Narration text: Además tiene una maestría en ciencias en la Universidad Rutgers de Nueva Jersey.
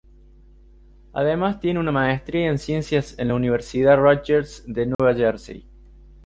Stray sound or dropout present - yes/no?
yes